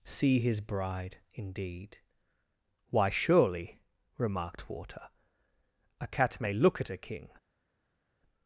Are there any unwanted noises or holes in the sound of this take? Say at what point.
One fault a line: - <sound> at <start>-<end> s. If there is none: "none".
none